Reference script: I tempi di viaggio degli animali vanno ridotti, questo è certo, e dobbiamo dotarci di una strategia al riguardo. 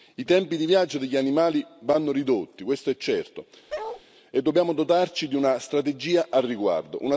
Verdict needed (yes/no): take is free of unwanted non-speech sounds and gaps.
no